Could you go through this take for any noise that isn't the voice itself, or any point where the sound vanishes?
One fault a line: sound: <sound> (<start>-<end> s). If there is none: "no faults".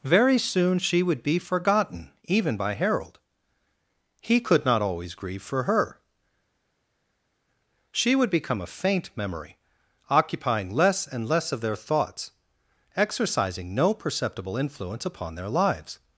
no faults